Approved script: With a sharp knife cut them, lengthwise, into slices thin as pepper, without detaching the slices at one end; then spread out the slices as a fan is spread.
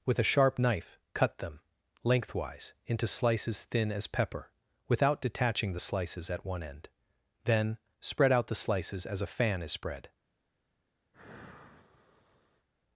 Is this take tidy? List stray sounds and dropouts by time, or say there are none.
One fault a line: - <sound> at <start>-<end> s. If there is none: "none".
- sigh at 11.1-12.7 s